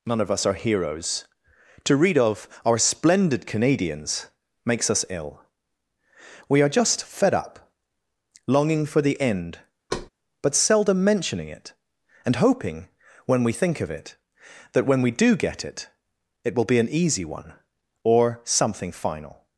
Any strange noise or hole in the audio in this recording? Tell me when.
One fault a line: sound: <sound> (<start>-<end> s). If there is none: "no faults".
sound: thud (9.9-10.1 s)